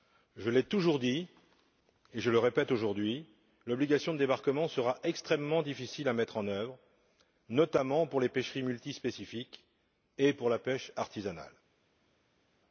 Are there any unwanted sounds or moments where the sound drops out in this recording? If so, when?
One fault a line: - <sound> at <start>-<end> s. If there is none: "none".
none